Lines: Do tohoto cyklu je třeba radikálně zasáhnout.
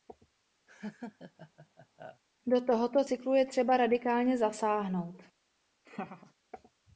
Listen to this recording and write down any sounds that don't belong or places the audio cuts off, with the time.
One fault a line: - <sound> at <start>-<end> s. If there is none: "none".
- laugh at 0.7-2.2 s
- laugh at 5.8-6.3 s